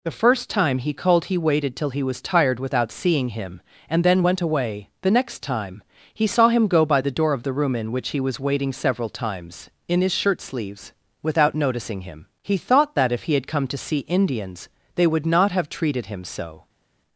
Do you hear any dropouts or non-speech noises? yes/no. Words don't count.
no